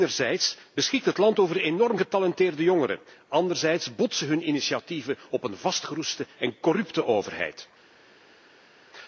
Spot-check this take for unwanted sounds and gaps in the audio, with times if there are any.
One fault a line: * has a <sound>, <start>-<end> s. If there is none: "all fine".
all fine